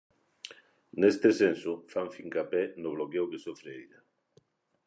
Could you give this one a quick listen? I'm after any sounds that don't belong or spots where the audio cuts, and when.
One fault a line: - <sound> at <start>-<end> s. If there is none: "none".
none